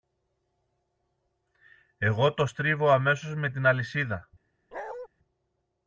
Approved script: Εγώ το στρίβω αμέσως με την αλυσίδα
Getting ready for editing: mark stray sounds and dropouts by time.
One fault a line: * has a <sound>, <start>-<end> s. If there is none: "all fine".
* has a bark, 4.7-5.1 s